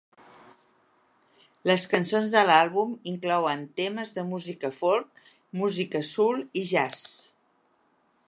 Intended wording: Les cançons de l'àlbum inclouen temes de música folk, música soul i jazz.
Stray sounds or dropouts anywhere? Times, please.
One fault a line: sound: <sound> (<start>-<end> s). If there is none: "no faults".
no faults